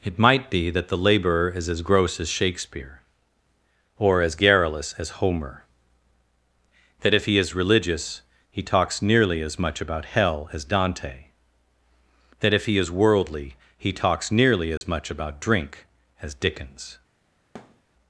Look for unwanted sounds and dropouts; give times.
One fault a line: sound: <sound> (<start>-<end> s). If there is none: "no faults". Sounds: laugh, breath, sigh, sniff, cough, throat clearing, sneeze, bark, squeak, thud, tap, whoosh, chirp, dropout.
sound: dropout (14.8-14.8 s)
sound: thud (17.5-17.8 s)